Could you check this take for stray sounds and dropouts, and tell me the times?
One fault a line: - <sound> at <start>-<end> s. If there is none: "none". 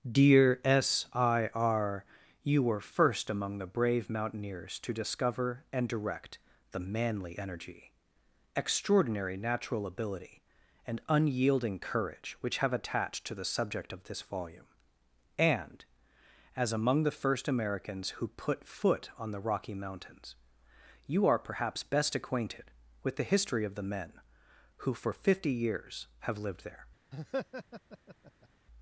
- laugh at 27.1-28.5 s